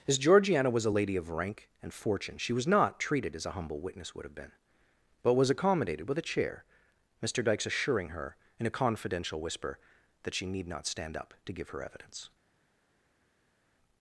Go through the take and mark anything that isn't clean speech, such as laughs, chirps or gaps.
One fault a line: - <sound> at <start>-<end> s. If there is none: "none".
none